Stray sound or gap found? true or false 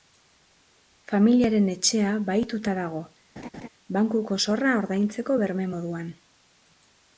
true